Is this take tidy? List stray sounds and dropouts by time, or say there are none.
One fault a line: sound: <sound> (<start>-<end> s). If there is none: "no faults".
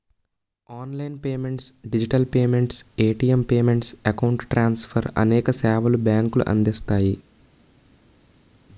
no faults